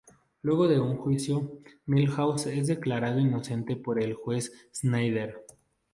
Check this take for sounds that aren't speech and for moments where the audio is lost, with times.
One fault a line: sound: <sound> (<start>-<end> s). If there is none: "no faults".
no faults